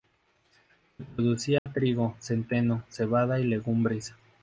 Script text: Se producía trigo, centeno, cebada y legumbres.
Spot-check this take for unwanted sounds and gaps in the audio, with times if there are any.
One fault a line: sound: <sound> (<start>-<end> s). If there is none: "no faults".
sound: dropout (1.6-1.7 s)